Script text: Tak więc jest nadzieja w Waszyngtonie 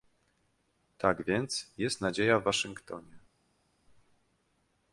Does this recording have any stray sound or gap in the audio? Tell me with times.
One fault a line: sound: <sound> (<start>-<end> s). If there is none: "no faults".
no faults